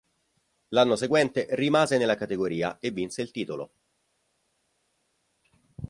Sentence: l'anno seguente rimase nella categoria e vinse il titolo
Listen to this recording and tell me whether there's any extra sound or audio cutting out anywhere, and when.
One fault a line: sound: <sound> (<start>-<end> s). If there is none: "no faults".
no faults